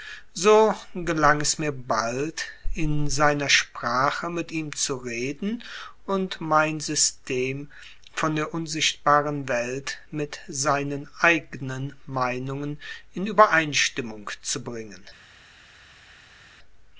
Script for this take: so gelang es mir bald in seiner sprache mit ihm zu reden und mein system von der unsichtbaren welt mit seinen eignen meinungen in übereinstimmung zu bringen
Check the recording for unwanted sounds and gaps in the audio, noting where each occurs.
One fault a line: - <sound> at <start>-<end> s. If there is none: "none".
none